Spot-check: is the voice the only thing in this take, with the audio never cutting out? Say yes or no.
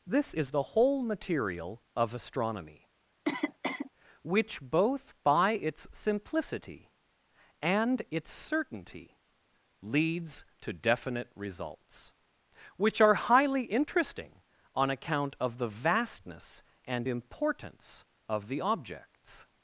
no